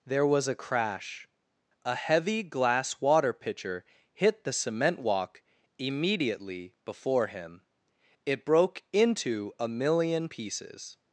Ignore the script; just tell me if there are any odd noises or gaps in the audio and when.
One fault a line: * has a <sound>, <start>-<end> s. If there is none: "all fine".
all fine